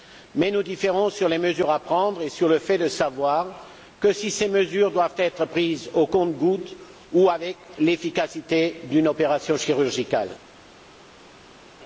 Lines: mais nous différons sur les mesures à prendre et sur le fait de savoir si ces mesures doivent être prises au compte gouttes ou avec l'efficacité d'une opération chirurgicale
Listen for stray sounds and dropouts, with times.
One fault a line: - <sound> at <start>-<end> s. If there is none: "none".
none